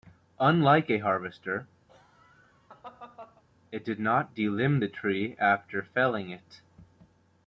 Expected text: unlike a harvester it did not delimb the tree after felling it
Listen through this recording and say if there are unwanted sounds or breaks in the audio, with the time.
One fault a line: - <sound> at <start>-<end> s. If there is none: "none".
- laugh at 1.9-3.4 s